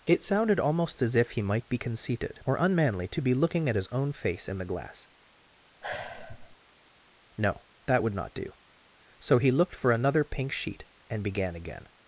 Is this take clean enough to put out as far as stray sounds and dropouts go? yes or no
no